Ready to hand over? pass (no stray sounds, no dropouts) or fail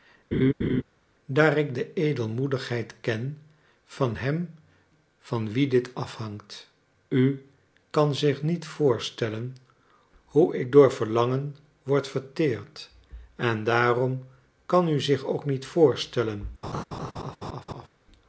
fail